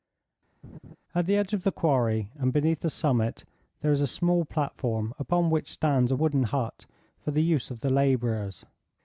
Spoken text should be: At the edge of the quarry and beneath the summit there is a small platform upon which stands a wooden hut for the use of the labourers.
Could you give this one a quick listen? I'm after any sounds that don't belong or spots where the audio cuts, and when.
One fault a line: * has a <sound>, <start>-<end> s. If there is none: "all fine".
* has a laugh, 0.6-1.0 s